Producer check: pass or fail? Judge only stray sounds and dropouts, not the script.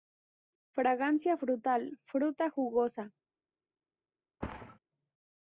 fail